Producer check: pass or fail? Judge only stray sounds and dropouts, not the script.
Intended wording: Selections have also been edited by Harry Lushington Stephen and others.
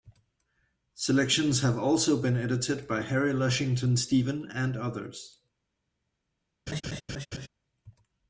fail